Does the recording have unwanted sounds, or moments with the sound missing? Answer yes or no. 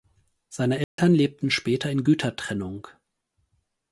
yes